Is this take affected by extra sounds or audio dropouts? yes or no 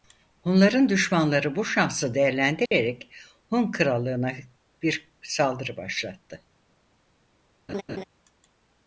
yes